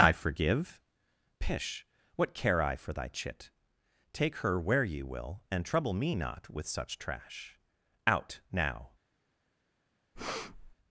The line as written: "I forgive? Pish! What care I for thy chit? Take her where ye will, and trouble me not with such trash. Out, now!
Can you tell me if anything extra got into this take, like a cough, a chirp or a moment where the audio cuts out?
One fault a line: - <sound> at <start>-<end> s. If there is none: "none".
- breath at 10.1-10.7 s